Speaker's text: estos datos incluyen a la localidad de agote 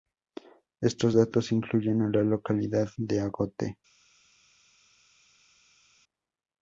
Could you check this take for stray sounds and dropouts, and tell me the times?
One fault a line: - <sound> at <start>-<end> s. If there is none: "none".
none